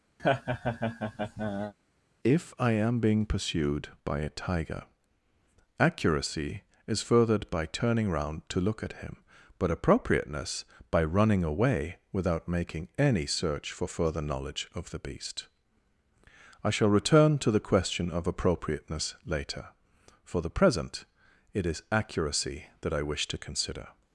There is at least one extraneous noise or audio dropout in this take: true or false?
true